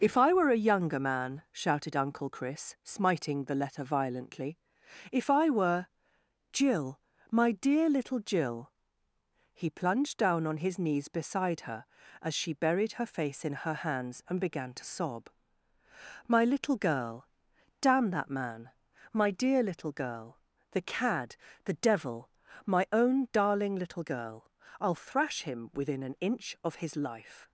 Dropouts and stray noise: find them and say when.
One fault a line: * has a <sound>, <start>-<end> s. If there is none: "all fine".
all fine